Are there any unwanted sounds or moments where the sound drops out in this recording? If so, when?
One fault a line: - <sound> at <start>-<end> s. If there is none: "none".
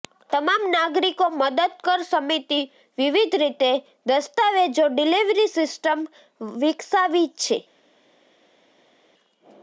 none